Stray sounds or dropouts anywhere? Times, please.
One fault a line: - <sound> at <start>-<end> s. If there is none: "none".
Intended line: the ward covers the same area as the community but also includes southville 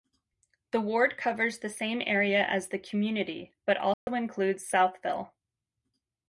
- dropout at 3.9-4.1 s